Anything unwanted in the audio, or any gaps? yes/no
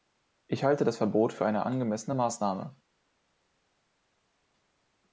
no